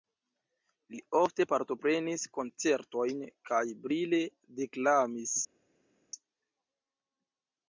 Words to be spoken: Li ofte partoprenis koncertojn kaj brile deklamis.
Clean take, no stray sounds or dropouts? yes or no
yes